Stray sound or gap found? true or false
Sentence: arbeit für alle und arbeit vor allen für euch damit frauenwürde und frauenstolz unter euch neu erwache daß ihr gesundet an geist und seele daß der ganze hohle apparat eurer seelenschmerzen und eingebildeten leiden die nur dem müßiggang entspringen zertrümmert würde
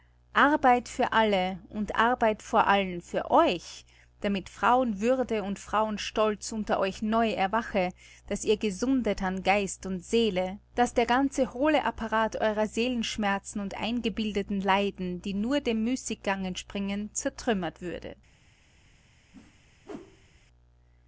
true